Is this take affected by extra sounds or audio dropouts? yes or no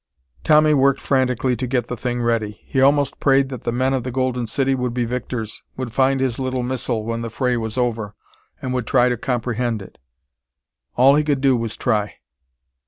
no